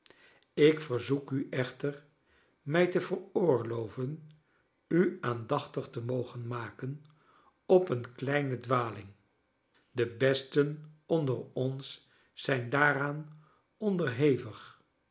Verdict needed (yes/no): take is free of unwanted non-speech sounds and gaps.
yes